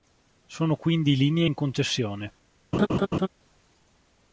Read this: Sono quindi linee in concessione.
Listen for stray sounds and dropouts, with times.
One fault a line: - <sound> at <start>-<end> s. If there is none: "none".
- laugh at 2.7-3.3 s